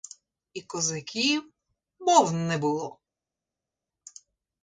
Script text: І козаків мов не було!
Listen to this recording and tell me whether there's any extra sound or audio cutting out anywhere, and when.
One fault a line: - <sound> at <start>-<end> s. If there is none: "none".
none